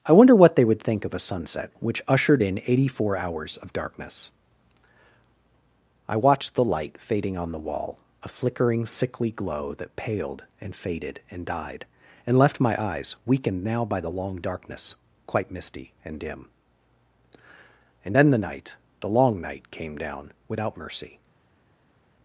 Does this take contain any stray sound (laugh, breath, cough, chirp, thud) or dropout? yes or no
no